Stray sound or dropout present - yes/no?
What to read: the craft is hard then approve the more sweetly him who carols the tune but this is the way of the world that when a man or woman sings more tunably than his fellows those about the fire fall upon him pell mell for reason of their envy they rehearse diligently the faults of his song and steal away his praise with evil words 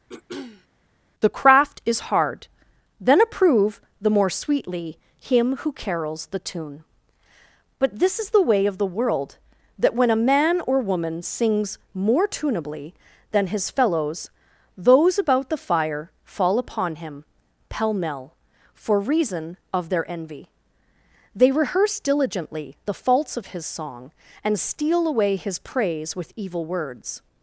yes